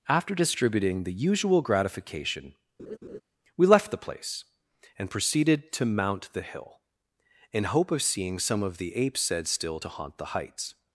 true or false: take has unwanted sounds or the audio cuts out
true